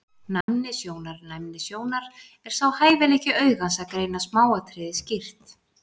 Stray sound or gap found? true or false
true